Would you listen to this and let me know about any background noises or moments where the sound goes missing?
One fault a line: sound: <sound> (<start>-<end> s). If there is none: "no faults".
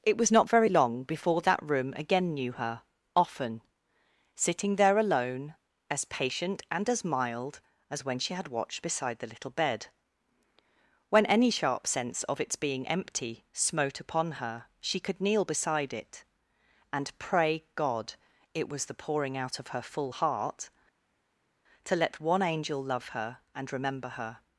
no faults